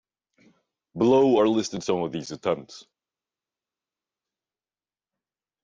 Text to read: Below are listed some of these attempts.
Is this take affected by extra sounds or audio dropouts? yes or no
no